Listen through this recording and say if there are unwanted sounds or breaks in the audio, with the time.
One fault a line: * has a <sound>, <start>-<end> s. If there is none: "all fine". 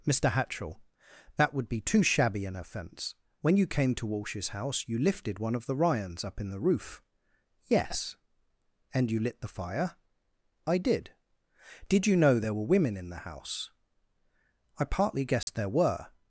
* has a dropout, 15.4-15.5 s